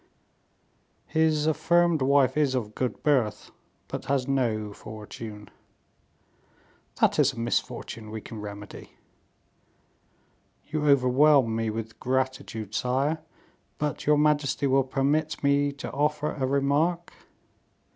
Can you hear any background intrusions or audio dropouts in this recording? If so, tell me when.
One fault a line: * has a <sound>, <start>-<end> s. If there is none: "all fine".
all fine